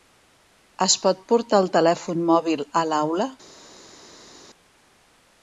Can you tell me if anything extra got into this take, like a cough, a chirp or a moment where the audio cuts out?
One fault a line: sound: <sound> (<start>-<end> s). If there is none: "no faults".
no faults